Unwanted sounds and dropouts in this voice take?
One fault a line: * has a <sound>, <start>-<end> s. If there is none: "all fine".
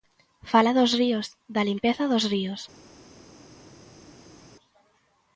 all fine